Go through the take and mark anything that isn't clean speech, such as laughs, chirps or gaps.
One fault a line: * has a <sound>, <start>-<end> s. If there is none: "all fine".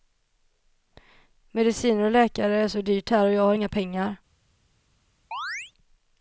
* has a chirp, 5.3-5.7 s